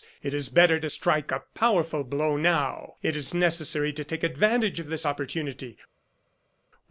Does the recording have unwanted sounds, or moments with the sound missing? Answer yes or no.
no